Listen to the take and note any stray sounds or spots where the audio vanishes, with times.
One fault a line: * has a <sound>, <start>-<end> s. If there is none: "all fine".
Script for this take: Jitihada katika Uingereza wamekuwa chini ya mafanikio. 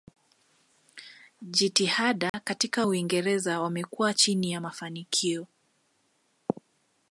* has a dropout, 2.3-2.3 s